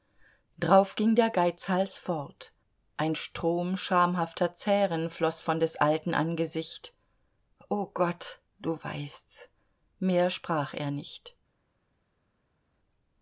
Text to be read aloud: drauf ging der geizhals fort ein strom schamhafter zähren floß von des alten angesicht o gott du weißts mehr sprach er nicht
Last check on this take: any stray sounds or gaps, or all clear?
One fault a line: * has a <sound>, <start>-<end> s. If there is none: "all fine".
all fine